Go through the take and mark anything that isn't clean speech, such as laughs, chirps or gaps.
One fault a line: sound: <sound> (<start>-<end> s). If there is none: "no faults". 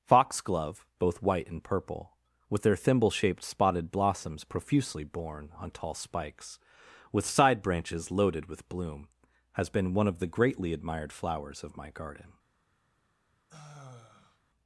sound: sigh (13.5-14.4 s)